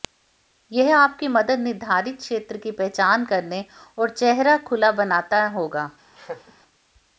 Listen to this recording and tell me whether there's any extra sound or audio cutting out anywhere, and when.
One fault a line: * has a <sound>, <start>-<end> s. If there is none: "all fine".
* has a laugh, 6.1-6.5 s